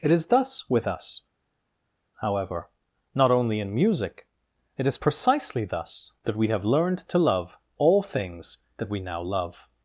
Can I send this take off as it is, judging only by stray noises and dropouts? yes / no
yes